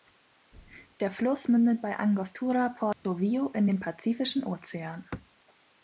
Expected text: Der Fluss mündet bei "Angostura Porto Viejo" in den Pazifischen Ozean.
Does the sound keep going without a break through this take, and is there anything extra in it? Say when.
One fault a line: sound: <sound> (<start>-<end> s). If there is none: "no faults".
sound: dropout (2.9-3.0 s)